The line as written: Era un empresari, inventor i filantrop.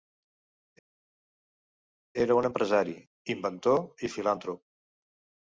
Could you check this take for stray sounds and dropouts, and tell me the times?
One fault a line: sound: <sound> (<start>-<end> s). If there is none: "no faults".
no faults